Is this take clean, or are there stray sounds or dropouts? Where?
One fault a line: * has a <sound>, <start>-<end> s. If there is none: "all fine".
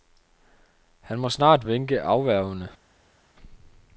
all fine